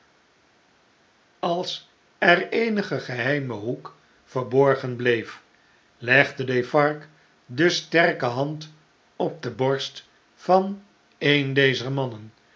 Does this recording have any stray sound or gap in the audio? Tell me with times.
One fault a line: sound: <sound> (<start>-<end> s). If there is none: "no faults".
no faults